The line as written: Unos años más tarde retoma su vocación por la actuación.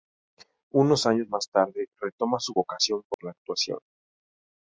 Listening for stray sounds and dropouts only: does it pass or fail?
fail